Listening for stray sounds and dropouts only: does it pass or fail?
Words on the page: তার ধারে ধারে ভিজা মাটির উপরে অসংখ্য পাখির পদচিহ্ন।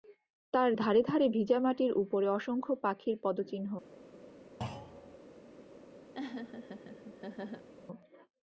fail